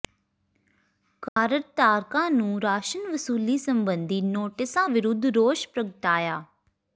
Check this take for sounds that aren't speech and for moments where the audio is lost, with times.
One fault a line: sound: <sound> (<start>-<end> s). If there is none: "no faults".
sound: dropout (1.3-1.4 s)